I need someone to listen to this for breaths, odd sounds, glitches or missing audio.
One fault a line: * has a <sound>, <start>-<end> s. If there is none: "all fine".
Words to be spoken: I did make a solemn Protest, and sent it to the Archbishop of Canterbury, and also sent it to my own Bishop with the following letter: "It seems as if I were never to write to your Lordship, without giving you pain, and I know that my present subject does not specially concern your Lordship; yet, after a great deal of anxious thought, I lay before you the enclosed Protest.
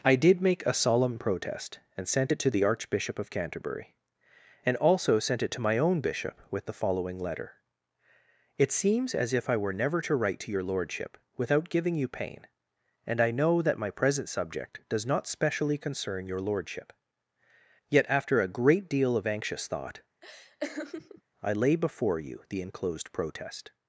* has a laugh, 20.2-21.2 s